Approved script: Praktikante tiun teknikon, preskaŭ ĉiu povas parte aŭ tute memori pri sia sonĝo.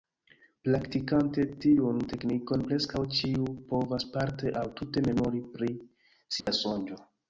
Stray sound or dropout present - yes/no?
yes